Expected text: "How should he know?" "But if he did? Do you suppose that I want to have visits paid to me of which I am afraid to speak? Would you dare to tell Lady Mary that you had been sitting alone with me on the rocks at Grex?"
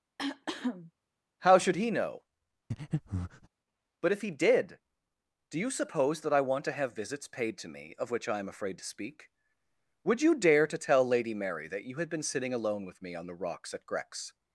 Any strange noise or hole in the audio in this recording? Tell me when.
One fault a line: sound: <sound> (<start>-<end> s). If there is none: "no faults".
sound: cough (0.2-0.9 s)
sound: breath (2.7-3.5 s)